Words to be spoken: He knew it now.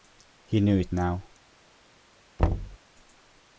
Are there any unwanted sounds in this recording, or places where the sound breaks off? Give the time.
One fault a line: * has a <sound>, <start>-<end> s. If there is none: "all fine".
* has a thud, 2.4-2.8 s